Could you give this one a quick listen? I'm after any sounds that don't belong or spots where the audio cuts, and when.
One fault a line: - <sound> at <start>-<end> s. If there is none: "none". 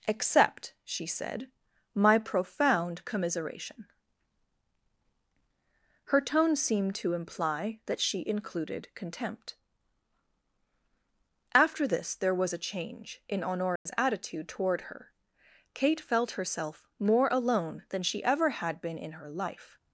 - dropout at 13.8-13.9 s